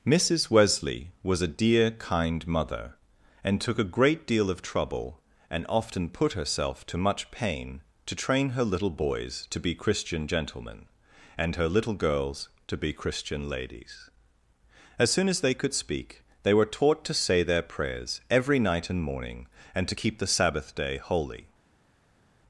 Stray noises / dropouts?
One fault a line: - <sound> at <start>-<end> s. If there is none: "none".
none